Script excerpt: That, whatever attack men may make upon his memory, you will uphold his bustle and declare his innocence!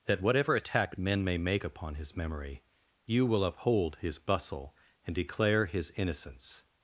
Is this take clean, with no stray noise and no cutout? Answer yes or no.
yes